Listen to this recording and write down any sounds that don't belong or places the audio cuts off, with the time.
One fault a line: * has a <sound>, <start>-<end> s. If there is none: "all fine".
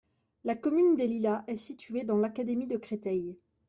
all fine